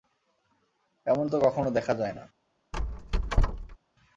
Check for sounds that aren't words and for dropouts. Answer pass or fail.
fail